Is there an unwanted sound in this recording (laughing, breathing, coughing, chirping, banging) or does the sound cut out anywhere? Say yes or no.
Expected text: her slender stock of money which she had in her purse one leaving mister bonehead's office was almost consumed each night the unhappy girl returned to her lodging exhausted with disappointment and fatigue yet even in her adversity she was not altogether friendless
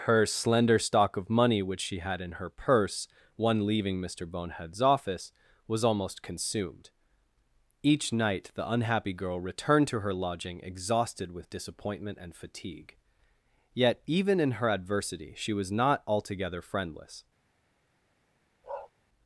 yes